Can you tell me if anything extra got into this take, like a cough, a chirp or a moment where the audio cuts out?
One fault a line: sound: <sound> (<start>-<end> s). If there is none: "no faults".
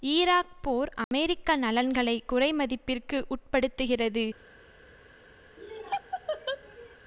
sound: dropout (1.0-1.1 s)
sound: laugh (5.6-7.0 s)